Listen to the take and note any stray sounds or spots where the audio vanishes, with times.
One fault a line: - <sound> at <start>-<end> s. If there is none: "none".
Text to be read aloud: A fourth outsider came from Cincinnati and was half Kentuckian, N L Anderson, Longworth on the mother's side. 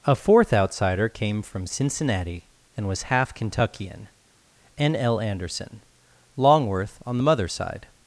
none